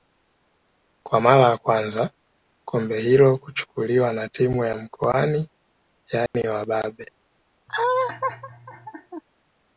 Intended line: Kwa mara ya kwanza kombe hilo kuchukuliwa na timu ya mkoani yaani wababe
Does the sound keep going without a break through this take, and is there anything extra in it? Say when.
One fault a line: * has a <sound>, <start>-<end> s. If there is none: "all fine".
* has a dropout, 6.3-6.3 s
* has a laugh, 7.7-9.2 s